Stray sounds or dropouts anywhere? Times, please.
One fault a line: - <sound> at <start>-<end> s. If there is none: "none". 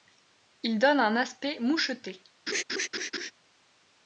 - laugh at 2.5-3.3 s